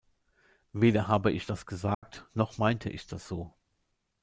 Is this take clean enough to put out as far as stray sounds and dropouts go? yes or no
no